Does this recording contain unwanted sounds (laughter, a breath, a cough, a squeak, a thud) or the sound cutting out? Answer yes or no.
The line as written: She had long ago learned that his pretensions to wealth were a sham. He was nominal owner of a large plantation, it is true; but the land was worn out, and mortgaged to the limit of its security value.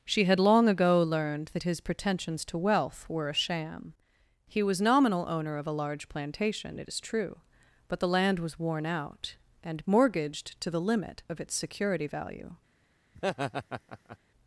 yes